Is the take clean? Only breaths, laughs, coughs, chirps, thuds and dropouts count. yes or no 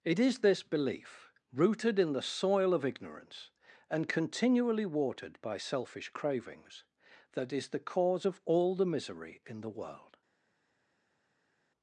yes